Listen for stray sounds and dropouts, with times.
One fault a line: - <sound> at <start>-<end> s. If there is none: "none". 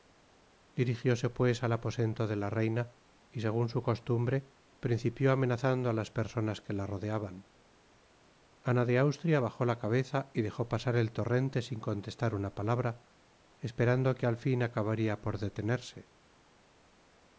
none